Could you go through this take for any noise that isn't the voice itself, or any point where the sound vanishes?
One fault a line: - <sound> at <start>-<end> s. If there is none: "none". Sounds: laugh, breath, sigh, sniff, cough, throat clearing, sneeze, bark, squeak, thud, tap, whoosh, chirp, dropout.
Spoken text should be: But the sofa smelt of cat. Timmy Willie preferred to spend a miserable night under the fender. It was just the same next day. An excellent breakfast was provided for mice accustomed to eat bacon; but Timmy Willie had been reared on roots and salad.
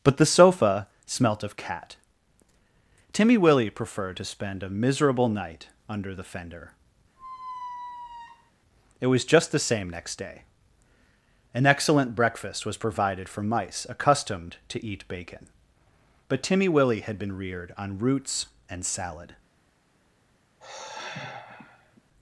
- squeak at 7.2-8.5 s
- sigh at 20.6-22.0 s